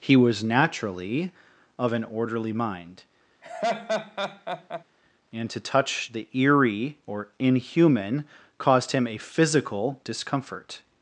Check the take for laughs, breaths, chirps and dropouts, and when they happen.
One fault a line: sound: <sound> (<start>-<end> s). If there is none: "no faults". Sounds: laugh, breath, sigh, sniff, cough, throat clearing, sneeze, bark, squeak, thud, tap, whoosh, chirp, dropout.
sound: laugh (3.4-4.8 s)